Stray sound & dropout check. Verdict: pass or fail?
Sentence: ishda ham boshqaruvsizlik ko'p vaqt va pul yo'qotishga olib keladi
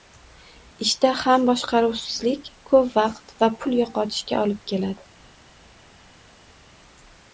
pass